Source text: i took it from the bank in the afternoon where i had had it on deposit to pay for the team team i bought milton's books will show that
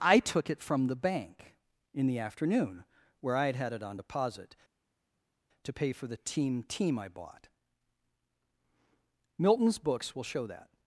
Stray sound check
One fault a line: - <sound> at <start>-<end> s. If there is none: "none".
none